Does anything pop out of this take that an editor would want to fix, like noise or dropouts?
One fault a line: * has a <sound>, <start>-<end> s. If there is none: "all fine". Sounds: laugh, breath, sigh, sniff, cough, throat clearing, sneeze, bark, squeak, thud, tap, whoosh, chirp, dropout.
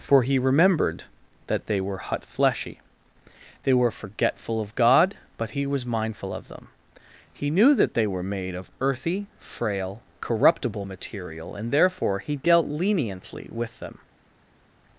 all fine